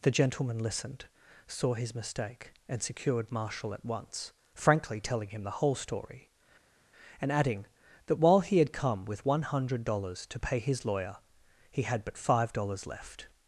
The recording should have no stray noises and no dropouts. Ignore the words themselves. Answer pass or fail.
pass